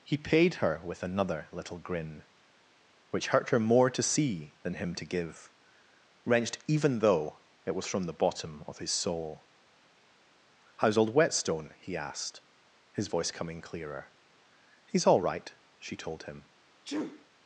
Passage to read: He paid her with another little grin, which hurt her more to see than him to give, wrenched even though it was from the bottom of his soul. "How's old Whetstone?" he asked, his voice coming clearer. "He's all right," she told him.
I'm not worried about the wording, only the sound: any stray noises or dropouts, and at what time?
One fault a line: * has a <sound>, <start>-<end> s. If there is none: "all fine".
* has a sneeze, 16.8-17.3 s